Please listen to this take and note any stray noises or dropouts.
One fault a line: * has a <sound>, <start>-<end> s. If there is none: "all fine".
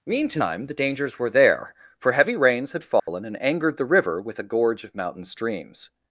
* has a dropout, 3.0-3.1 s